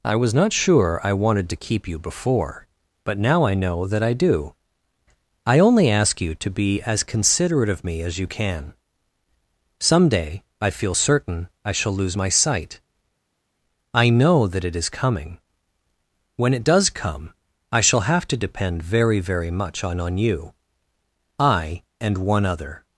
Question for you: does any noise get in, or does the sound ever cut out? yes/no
no